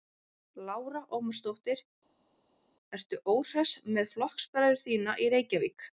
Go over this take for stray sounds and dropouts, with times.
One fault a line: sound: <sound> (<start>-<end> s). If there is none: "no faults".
no faults